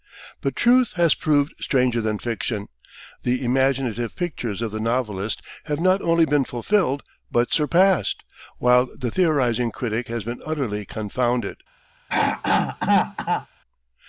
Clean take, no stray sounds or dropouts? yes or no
no